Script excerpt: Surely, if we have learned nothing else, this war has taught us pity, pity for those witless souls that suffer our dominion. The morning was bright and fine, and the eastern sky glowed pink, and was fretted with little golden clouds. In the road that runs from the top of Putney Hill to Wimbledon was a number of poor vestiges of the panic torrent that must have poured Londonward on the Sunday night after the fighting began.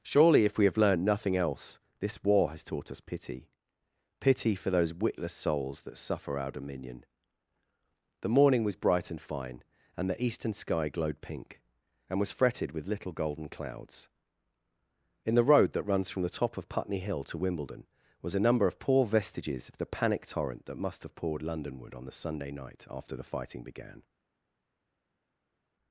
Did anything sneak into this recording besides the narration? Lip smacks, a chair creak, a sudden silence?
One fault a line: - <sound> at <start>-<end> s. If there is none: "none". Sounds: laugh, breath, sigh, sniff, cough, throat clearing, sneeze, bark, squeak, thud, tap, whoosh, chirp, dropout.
none